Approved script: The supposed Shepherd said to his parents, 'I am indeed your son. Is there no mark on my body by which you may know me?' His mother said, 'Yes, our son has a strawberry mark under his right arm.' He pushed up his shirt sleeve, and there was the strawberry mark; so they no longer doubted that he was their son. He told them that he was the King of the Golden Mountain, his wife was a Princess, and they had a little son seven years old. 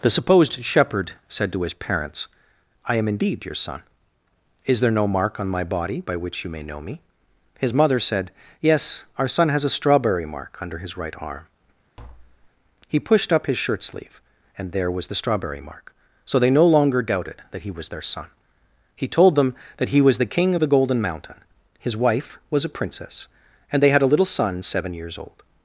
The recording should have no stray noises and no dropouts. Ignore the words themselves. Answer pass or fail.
fail